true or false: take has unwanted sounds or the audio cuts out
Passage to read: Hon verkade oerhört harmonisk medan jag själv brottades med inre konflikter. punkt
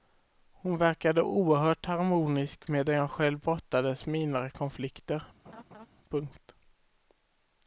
true